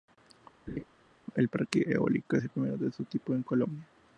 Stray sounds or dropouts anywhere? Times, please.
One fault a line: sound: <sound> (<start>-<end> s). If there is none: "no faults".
sound: laugh (0.7-0.8 s)